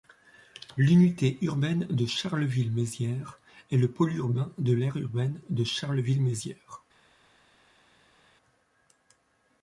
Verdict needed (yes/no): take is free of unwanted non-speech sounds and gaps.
yes